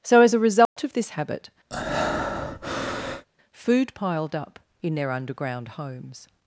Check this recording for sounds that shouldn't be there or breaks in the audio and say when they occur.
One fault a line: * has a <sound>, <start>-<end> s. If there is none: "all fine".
* has a dropout, 0.7-0.8 s
* has a breath, 1.7-3.3 s